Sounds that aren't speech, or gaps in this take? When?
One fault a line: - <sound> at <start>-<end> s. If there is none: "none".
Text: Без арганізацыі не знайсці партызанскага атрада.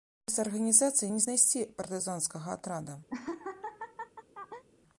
- laugh at 3.1-4.6 s